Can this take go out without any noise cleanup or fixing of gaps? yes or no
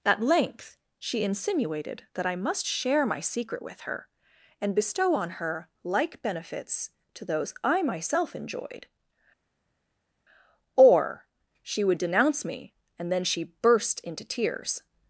yes